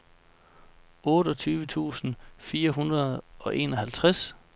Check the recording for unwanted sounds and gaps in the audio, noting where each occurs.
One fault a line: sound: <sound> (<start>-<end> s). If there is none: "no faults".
no faults